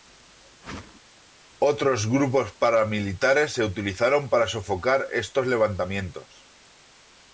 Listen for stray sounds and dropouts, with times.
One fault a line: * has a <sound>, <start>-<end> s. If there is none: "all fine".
* has a whoosh, 0.6-1.0 s